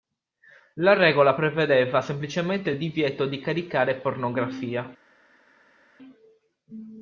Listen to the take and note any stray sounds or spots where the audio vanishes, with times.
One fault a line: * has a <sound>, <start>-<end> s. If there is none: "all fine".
all fine